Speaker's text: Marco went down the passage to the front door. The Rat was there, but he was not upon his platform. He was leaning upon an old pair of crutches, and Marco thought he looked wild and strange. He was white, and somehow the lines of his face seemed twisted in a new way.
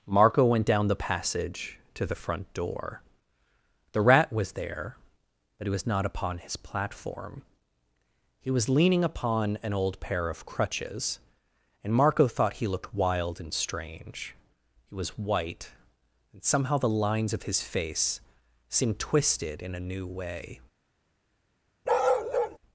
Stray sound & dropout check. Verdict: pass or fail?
fail